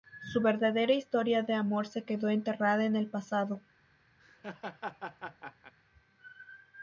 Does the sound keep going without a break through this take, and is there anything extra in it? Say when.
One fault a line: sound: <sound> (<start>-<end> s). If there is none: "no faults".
sound: laugh (4.2-5.7 s)